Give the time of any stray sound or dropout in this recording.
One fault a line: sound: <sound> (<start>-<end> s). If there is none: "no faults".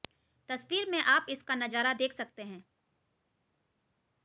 no faults